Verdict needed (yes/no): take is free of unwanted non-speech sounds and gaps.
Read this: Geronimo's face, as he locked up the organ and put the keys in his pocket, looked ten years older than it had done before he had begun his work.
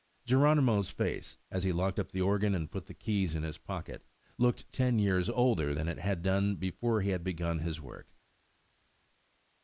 yes